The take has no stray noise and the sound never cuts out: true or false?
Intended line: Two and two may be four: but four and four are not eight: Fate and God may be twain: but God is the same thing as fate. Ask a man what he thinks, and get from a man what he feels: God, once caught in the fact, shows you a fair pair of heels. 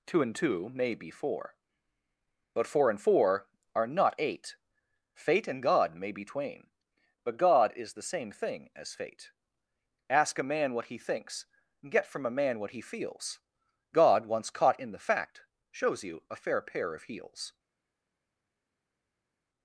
true